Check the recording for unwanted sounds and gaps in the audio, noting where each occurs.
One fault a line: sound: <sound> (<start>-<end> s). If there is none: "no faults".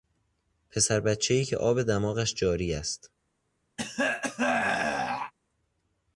sound: throat clearing (3.8-5.3 s)